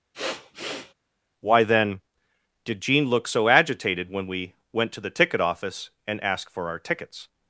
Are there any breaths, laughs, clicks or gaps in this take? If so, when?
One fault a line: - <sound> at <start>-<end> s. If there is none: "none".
- sniff at 0.1-0.9 s